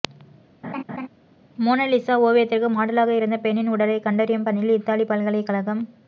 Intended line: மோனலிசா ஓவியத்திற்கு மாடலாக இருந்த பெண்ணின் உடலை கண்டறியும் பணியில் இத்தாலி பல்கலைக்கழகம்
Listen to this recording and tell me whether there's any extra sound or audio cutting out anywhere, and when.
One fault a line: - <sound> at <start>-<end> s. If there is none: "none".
- laugh at 0.6-1.1 s